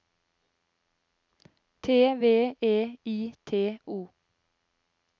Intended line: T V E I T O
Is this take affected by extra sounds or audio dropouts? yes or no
no